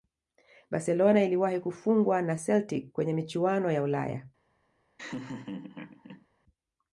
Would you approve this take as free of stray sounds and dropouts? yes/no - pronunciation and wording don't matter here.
no